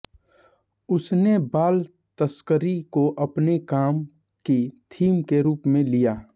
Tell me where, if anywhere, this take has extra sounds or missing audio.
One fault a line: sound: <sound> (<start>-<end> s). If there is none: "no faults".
no faults